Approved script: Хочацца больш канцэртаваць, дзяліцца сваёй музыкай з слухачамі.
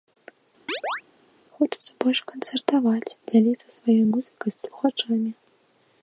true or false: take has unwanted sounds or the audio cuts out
true